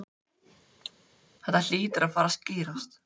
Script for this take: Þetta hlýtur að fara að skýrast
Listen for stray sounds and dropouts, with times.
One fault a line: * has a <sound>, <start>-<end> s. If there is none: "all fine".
* has a cough, 0.8-0.9 s